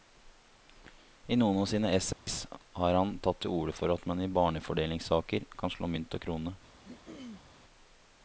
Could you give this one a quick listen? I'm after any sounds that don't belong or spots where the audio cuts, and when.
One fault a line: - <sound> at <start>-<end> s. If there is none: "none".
- dropout at 2.1-2.3 s
- throat clearing at 6.8-7.4 s